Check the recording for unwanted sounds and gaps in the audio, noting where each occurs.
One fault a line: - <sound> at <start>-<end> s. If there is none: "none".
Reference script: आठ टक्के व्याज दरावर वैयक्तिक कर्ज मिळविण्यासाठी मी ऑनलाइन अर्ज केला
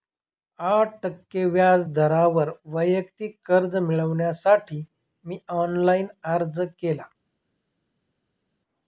none